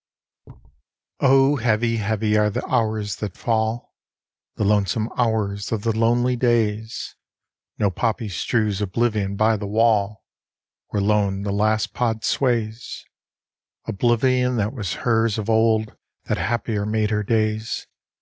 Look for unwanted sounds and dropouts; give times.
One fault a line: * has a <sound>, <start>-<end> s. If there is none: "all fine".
* has a thud, 0.4-0.8 s